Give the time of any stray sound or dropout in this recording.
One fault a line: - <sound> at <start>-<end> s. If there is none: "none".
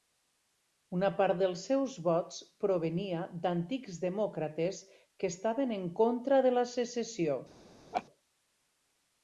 - laugh at 7.9-8.0 s